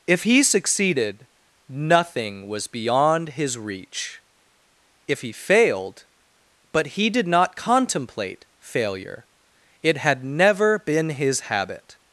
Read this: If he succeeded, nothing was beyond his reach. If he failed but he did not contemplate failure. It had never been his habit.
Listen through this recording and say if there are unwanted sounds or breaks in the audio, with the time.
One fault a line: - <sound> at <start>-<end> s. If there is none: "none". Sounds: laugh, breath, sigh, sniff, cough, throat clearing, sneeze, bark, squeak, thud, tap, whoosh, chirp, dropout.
none